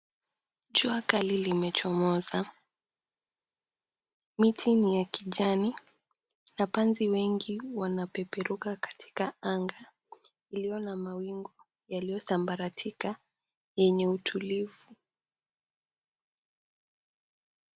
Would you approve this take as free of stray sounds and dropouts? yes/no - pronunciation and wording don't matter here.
yes